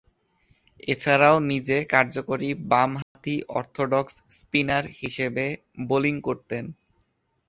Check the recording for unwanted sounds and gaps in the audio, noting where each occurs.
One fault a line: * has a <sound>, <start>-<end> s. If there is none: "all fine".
* has a dropout, 3.0-3.2 s